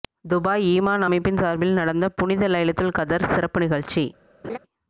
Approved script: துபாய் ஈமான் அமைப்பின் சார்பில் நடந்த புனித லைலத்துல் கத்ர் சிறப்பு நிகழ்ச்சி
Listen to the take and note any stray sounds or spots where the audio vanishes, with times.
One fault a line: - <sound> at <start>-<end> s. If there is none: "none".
- laugh at 4.4-4.6 s